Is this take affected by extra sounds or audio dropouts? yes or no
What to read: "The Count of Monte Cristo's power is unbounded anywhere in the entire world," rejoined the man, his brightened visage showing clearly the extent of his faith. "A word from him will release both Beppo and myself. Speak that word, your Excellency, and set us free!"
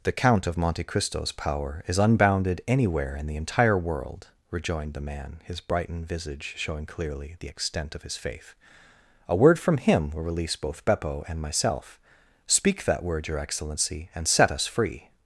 no